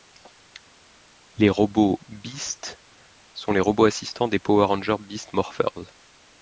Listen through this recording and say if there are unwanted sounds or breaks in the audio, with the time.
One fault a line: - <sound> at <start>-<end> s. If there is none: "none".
none